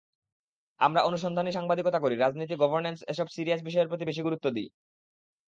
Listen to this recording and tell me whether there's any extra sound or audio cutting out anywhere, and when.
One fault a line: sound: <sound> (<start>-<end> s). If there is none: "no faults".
no faults